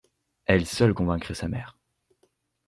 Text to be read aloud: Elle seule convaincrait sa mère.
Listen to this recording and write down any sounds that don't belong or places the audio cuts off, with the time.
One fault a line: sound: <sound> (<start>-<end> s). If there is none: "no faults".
no faults